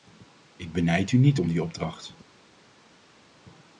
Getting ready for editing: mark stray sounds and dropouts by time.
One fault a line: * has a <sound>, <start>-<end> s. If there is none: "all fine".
all fine